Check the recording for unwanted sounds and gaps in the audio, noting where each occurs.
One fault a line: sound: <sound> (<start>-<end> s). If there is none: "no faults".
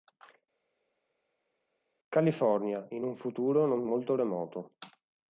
no faults